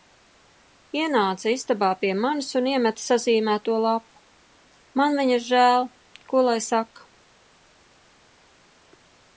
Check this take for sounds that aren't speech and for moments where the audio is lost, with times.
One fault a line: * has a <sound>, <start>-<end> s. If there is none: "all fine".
all fine